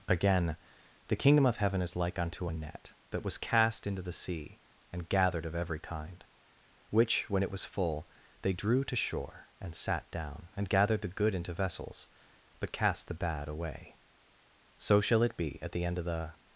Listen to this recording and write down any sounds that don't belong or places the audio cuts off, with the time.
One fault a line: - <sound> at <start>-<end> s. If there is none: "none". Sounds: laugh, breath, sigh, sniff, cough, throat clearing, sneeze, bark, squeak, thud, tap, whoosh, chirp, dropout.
none